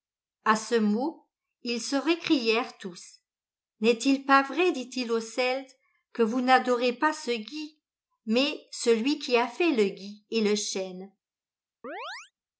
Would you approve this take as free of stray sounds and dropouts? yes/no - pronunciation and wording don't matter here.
no